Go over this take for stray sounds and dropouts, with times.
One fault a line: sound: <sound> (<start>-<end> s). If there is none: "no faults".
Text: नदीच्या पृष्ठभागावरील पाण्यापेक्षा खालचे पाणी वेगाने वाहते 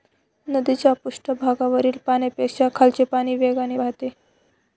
no faults